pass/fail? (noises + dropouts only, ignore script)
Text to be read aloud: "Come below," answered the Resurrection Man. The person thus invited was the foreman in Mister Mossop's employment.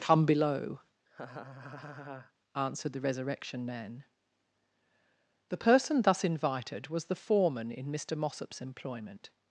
fail